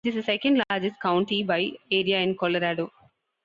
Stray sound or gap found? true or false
false